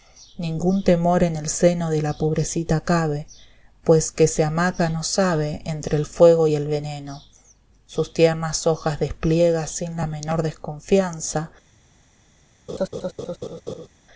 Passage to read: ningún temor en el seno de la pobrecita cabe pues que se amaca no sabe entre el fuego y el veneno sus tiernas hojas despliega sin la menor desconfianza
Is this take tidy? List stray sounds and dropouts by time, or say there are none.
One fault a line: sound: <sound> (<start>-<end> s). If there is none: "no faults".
sound: laugh (12.7-13.9 s)